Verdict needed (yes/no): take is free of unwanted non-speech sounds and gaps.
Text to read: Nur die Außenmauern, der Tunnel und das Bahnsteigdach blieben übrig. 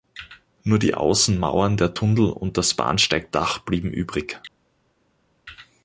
yes